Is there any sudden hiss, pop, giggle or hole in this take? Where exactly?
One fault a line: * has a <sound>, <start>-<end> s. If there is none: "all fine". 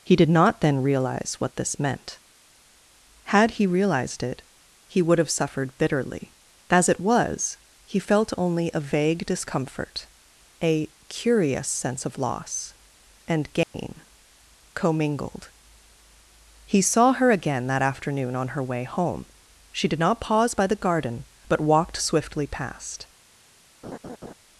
* has a dropout, 13.6-13.7 s
* has a laugh, 23.8-24.3 s